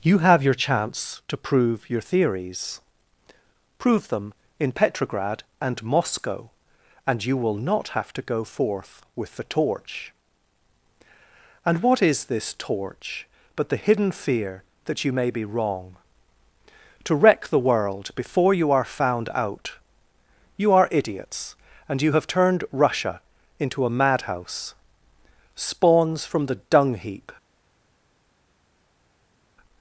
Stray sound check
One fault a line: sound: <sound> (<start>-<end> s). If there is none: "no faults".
no faults